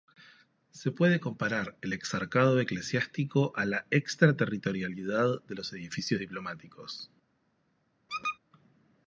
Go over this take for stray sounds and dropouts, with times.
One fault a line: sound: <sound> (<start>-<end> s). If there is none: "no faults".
sound: squeak (8.1-8.4 s)